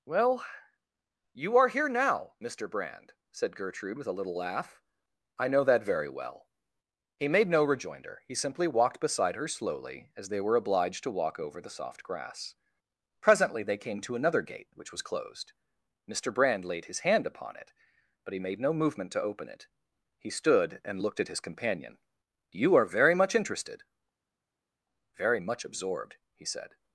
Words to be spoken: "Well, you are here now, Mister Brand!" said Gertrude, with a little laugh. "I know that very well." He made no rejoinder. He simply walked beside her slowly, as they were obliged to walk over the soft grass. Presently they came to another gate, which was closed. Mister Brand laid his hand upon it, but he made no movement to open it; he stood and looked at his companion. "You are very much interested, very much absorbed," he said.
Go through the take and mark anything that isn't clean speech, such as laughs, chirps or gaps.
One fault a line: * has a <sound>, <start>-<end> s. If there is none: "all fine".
all fine